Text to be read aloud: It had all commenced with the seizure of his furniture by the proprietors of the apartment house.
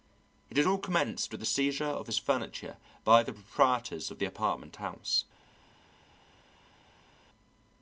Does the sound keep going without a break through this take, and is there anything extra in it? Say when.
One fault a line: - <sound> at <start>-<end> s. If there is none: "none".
none